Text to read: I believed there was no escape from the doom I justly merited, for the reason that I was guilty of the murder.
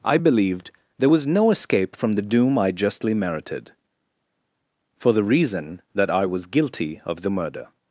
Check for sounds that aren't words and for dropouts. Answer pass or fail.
pass